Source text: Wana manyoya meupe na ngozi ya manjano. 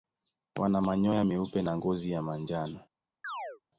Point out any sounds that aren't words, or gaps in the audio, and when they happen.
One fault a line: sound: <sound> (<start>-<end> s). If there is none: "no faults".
sound: chirp (3.2-3.6 s)